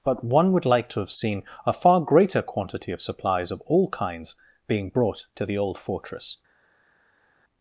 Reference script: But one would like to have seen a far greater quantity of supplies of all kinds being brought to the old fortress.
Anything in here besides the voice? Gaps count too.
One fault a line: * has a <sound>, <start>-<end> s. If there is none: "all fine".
all fine